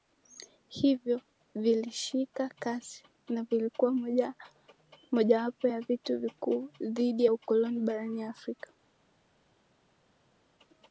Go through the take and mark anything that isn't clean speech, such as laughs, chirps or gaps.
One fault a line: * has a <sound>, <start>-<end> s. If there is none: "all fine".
all fine